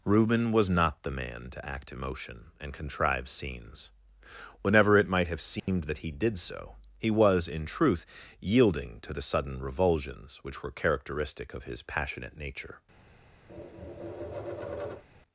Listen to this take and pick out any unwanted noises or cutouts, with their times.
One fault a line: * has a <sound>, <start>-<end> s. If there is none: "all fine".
* has a dropout, 5.6-5.7 s
* has a tap, 13.5-15.0 s